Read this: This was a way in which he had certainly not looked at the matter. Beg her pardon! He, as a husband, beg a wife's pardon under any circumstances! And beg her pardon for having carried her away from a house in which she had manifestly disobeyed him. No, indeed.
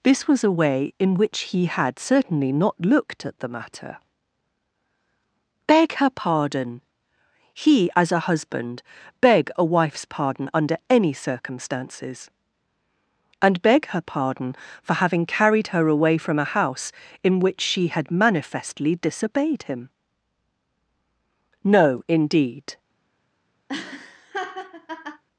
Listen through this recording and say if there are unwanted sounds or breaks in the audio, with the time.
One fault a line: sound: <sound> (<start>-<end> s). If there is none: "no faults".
sound: laugh (23.7-25.2 s)